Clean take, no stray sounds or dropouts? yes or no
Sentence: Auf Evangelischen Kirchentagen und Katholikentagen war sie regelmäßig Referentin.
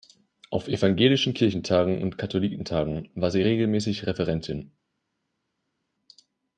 yes